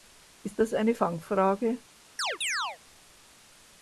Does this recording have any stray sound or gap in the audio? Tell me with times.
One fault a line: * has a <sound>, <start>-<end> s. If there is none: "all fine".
* has a chirp, 2.2-2.8 s